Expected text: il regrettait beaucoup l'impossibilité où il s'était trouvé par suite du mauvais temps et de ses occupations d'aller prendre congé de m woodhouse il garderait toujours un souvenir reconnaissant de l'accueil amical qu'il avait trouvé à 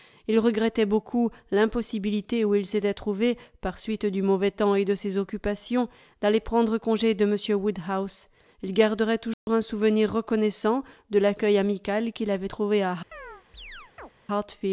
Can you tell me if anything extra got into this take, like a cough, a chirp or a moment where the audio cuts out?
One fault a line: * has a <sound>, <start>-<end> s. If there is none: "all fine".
* has a dropout, 9.3-9.5 s
* has a chirp, 13.1-14.1 s